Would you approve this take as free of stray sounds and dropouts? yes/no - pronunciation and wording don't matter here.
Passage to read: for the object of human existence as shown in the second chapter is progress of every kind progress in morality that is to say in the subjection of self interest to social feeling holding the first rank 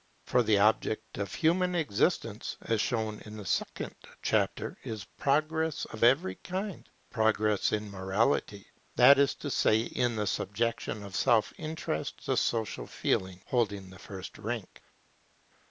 yes